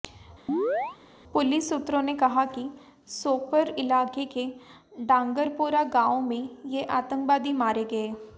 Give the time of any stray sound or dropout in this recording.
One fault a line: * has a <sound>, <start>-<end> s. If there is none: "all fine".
* has a chirp, 0.5-1.0 s